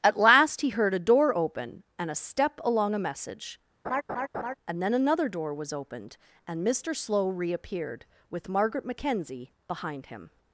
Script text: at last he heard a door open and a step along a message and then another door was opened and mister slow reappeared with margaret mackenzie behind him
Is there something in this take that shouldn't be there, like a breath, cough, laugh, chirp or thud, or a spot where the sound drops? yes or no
yes